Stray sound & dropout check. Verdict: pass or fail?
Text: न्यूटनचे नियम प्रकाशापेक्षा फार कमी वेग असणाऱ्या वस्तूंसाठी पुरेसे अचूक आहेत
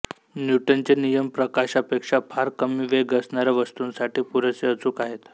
pass